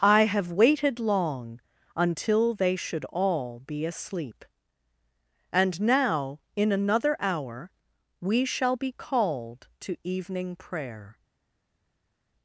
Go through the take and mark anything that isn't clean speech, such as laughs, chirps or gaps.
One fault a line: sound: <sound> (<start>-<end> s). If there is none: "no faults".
no faults